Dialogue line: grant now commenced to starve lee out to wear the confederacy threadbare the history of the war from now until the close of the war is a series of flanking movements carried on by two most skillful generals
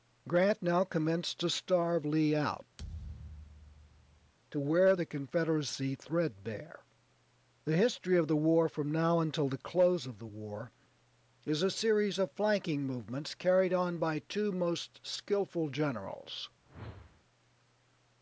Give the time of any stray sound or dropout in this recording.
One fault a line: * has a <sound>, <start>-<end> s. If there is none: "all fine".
* has a thud, 2.8-4.3 s
* has a whoosh, 16.6-17.2 s